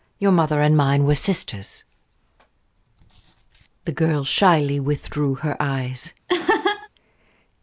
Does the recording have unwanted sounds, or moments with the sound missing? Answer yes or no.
yes